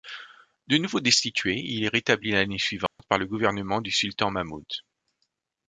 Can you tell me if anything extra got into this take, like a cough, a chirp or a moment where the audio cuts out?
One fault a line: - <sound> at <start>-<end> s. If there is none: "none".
- dropout at 2.9-3.0 s